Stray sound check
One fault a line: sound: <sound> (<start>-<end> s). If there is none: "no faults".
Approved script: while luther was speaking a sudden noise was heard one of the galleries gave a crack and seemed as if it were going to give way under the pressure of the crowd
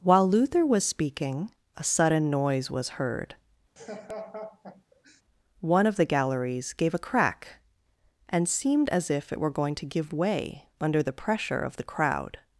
sound: laugh (3.8-5.2 s)